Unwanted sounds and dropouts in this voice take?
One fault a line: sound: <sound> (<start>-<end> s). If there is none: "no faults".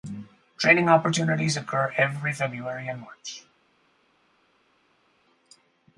no faults